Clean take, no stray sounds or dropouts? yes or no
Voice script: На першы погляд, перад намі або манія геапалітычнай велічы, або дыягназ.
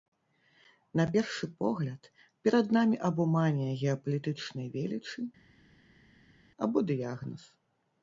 yes